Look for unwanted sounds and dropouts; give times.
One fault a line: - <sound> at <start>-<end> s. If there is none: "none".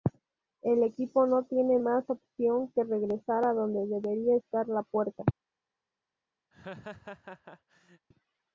- laugh at 6.5-8.1 s